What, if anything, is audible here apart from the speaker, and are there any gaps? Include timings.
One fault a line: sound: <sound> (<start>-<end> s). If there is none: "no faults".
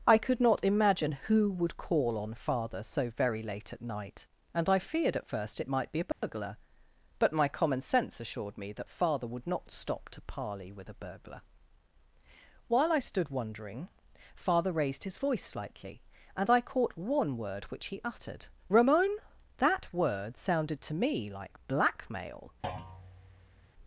sound: dropout (6.1-6.2 s)
sound: thud (22.6-23.7 s)